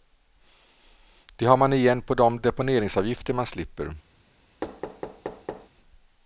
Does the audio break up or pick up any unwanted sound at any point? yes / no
yes